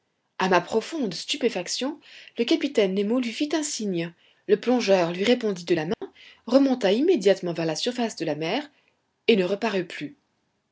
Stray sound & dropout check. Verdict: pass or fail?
fail